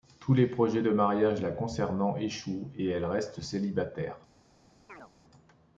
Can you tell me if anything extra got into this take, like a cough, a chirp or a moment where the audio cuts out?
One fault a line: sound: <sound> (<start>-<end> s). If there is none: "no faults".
sound: chirp (4.9-5.1 s)